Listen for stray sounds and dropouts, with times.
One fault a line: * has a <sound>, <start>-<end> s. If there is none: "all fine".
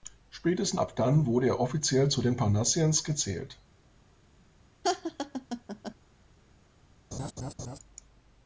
* has a laugh, 4.8-6.0 s
* has a laugh, 7.1-7.8 s